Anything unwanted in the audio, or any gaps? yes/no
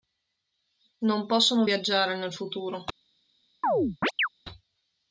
yes